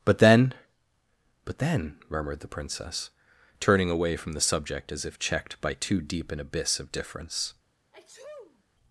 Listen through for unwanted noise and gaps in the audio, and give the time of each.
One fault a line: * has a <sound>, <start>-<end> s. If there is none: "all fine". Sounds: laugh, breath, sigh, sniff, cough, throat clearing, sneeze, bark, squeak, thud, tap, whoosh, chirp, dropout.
* has a sneeze, 7.9-8.6 s